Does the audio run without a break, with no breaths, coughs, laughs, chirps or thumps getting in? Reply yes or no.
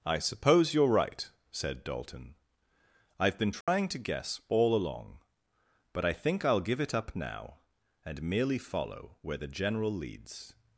no